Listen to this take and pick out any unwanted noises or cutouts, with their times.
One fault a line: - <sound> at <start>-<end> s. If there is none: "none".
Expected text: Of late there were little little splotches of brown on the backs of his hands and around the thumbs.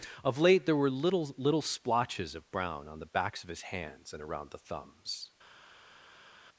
none